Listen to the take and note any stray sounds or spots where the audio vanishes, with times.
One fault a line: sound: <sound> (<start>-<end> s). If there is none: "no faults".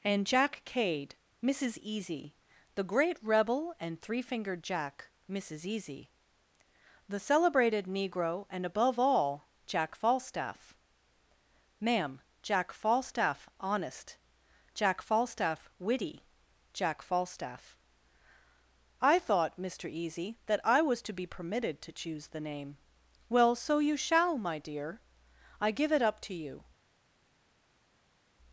no faults